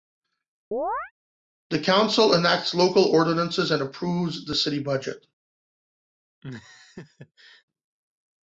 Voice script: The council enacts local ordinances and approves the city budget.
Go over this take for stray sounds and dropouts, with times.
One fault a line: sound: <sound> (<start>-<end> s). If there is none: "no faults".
sound: chirp (0.7-1.1 s)
sound: laugh (6.4-7.6 s)